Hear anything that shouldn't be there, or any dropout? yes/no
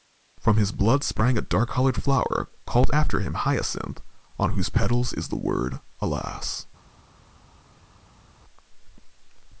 no